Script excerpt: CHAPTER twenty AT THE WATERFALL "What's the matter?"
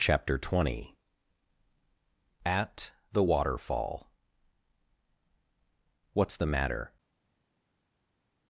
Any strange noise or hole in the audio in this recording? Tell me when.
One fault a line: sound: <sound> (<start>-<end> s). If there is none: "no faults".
no faults